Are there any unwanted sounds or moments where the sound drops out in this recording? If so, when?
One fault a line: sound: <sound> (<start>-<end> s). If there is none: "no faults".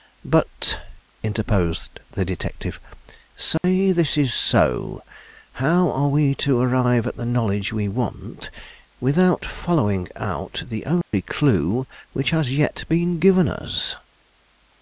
sound: dropout (3.6-3.6 s)
sound: dropout (11.0-11.1 s)